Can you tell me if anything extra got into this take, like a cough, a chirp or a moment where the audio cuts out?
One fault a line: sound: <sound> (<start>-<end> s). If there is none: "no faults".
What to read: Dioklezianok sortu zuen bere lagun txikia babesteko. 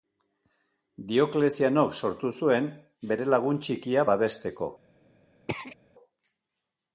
sound: throat clearing (5.5-5.8 s)